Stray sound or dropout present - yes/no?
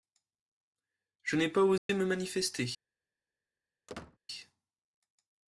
yes